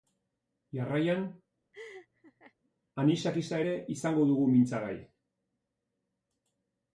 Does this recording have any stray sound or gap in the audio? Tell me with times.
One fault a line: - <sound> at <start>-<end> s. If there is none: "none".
- laugh at 1.7-2.5 s